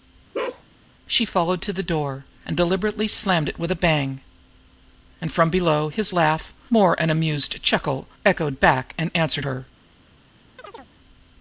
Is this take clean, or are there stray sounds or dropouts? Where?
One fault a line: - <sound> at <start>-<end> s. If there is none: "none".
- bark at 0.3-0.6 s
- chirp at 10.6-10.9 s